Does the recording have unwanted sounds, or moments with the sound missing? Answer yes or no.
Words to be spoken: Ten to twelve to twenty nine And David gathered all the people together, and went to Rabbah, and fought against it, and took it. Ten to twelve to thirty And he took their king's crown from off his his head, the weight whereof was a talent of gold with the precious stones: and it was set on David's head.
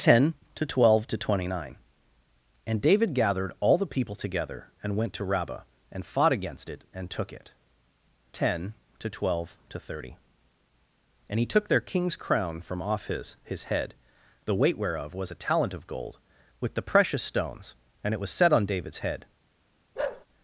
yes